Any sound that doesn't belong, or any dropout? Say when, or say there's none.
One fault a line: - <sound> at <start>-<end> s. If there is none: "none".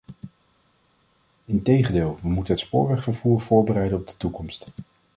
none